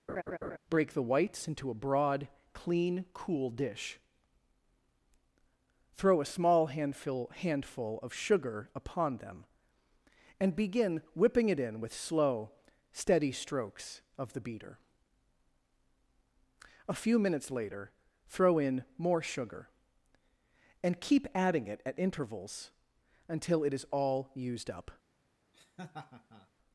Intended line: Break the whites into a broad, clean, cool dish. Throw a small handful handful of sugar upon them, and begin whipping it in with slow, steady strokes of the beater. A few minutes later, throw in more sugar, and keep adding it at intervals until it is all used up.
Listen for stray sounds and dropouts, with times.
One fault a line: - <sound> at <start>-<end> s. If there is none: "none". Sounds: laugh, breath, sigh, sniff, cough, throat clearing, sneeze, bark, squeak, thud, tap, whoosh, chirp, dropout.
- laugh at 0.1-0.6 s
- laugh at 25.5-26.5 s